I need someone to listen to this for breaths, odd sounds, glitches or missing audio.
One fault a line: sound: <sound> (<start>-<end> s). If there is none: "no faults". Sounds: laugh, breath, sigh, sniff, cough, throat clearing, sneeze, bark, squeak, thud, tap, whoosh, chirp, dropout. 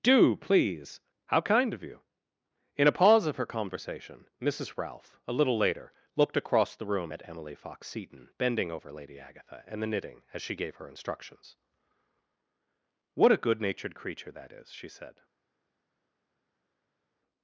no faults